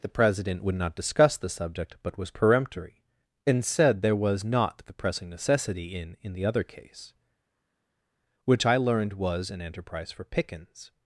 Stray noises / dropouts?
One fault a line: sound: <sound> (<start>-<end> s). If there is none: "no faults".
no faults